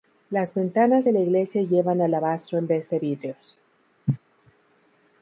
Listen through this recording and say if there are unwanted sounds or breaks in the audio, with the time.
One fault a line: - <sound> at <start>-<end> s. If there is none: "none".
- cough at 4.1-4.2 s